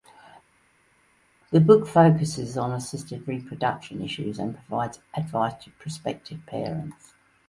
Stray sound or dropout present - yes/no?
no